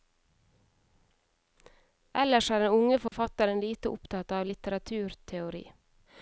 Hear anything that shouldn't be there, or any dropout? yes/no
yes